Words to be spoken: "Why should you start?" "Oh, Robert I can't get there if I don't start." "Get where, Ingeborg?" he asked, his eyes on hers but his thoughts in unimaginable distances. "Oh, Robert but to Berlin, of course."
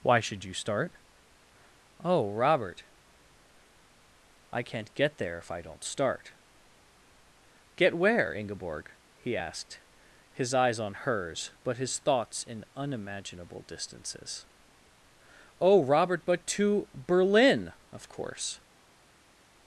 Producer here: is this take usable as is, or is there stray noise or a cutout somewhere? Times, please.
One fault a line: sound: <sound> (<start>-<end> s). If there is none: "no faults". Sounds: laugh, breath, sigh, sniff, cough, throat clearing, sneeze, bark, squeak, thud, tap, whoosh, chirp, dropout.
no faults